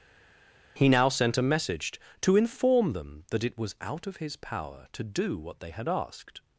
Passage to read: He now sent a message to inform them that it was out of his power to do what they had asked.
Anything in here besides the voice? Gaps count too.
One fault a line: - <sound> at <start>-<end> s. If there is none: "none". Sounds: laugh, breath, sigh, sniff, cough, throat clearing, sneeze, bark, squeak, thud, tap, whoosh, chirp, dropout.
none